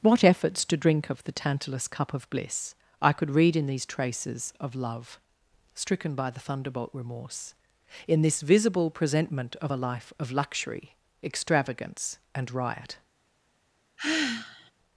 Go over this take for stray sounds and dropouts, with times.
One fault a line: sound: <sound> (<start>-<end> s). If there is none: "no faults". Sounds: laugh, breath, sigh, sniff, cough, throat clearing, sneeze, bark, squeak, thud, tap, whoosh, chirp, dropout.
sound: sigh (14.0-14.7 s)